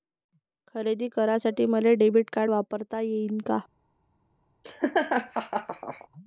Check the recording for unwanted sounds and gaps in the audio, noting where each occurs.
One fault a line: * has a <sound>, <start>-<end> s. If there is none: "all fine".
* has a laugh, 4.6-6.1 s